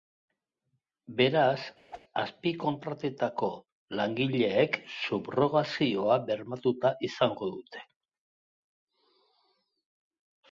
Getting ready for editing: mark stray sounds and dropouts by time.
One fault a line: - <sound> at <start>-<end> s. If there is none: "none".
- whoosh at 1.9-2.0 s